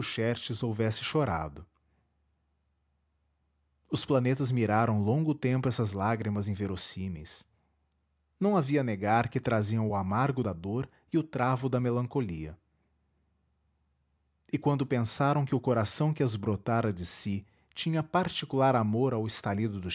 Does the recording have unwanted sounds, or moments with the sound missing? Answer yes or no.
no